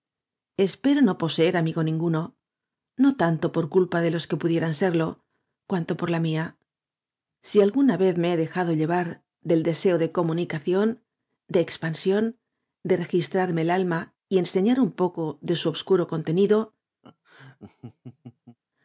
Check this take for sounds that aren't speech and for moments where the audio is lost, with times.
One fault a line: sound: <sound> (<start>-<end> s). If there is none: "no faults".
sound: laugh (17.0-18.6 s)